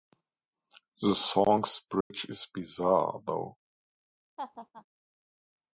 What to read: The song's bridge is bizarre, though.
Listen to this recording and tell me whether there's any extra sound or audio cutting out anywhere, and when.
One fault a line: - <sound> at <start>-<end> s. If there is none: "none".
- dropout at 2.0-2.1 s
- laugh at 4.4-4.9 s